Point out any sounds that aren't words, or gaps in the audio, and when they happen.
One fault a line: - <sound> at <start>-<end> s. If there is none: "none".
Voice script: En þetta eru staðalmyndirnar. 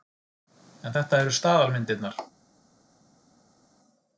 none